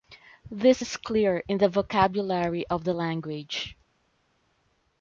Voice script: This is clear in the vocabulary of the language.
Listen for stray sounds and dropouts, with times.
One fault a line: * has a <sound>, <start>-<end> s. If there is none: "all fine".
all fine